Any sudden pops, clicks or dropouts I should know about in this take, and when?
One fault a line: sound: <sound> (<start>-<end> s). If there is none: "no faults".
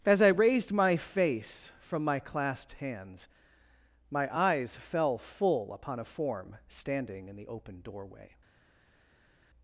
no faults